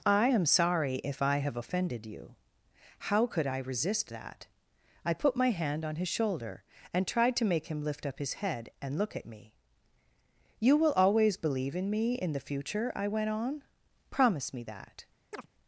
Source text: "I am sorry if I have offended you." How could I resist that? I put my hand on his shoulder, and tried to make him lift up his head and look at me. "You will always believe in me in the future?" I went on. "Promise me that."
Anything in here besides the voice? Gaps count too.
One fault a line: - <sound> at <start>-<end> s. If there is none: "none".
- chirp at 15.3-15.5 s